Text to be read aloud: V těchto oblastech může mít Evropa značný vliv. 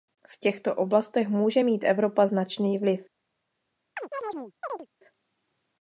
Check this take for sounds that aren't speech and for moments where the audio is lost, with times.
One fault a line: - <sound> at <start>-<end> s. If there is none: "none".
- chirp at 4.0-4.9 s